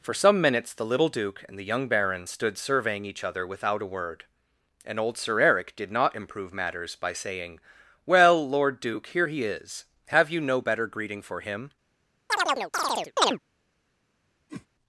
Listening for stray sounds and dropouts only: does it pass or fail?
fail